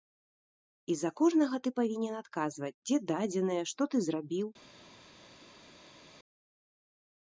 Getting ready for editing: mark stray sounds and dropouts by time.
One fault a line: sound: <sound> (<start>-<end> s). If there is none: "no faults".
no faults